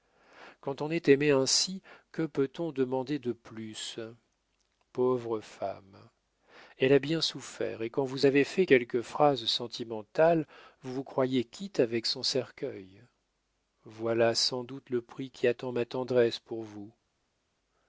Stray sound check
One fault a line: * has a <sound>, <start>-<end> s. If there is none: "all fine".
all fine